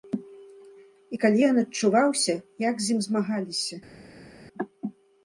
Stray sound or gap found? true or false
false